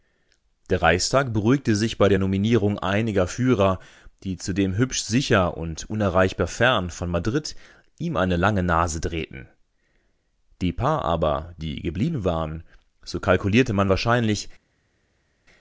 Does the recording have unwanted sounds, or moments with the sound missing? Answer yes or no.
no